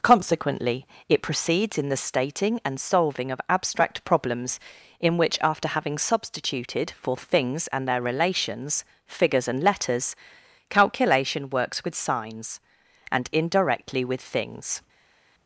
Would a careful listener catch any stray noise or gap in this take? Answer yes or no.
no